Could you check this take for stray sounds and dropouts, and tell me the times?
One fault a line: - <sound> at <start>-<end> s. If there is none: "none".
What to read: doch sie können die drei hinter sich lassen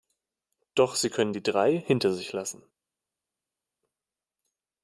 none